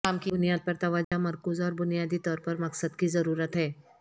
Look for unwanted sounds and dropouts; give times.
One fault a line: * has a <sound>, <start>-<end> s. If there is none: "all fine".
* has a dropout, 1.0-1.1 s